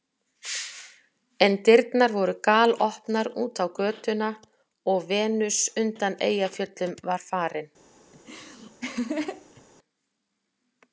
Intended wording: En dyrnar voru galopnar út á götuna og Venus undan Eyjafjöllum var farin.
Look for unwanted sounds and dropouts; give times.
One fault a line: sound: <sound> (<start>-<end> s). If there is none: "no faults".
sound: laugh (8.1-9.6 s)